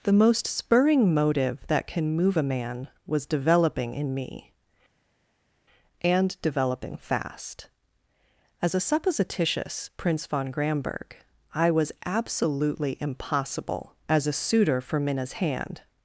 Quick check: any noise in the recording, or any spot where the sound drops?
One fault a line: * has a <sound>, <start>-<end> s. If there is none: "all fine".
all fine